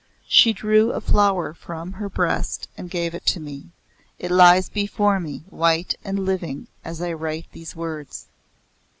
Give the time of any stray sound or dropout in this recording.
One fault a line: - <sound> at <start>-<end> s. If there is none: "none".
none